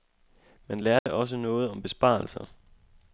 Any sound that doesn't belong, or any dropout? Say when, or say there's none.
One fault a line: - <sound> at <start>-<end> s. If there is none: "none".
- dropout at 1.0-1.1 s